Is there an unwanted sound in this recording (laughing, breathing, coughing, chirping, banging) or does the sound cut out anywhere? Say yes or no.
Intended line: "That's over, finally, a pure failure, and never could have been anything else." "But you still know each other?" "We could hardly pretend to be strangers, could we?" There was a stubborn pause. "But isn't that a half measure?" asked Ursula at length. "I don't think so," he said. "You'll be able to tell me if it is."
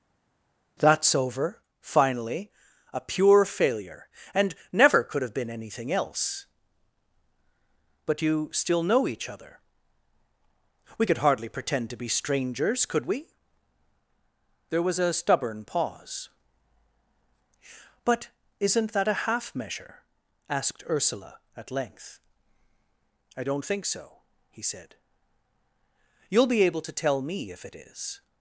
no